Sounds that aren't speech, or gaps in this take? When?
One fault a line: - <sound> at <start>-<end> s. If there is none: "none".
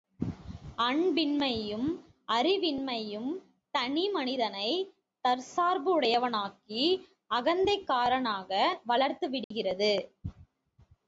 - dropout at 9.4-9.5 s